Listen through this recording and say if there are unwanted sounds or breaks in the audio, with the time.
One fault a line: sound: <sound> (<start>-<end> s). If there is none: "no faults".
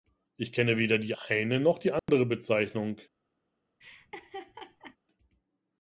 sound: dropout (2.0-2.1 s)
sound: laugh (3.8-5.0 s)